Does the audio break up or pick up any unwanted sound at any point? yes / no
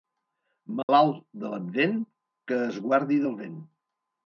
yes